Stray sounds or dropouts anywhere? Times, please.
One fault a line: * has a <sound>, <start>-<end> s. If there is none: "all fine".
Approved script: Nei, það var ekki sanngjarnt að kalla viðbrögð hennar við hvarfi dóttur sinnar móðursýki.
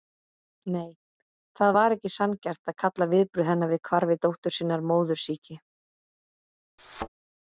* has a thud, 6.8-7.1 s